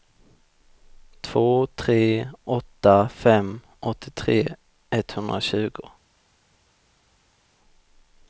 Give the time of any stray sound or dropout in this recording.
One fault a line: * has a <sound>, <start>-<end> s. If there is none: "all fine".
all fine